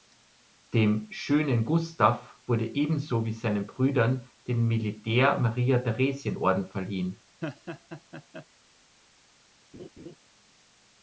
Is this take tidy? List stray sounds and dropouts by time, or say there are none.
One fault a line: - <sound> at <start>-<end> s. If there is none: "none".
- laugh at 7.4-8.5 s
- laugh at 9.7-10.2 s